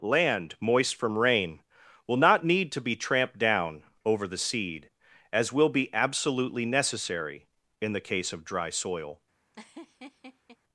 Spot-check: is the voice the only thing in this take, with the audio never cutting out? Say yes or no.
no